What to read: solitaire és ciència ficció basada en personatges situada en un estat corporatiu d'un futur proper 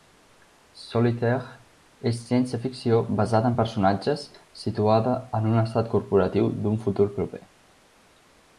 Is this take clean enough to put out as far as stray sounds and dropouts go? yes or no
yes